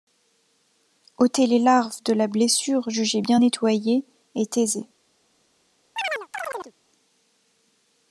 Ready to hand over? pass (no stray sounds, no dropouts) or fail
fail